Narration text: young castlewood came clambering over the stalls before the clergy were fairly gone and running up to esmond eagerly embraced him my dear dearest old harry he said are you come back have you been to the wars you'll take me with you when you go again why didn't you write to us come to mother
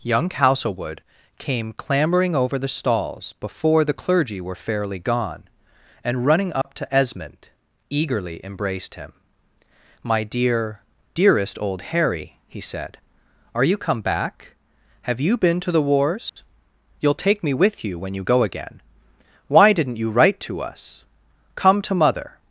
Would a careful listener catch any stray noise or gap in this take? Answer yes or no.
yes